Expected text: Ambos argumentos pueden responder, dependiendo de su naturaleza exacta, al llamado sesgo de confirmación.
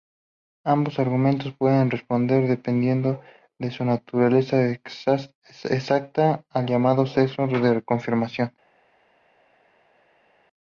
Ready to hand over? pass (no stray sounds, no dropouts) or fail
pass